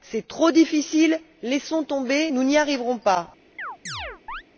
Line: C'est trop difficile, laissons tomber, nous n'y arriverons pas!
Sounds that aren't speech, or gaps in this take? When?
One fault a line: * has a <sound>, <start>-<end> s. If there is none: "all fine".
* has a chirp, 3.6-4.4 s